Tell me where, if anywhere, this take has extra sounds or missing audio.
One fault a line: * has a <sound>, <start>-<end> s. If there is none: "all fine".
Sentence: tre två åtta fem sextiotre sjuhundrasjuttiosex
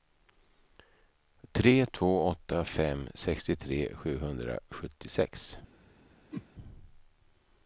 * has a whoosh, 6.3-6.5 s